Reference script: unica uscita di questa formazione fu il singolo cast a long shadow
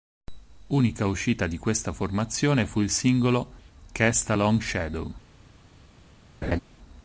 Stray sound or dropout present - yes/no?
yes